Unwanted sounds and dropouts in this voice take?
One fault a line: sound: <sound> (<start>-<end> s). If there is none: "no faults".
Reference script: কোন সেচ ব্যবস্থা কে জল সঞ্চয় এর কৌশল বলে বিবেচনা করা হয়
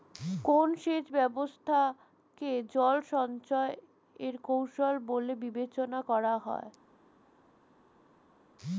no faults